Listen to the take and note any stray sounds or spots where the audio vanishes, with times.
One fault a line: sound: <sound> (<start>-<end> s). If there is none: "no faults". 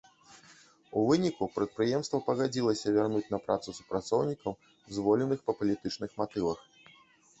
no faults